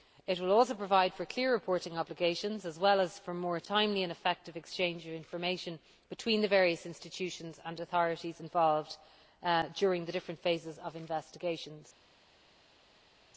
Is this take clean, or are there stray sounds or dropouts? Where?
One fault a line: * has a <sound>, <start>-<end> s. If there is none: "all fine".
all fine